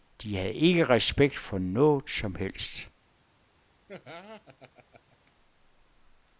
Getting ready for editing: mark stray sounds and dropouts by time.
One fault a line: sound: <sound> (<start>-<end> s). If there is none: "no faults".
sound: laugh (3.9-5.3 s)